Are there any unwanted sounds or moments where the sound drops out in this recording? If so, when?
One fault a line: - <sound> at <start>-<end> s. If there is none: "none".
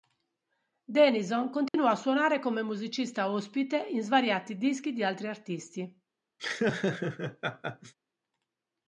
- dropout at 1.7-1.7 s
- laugh at 6.4-7.9 s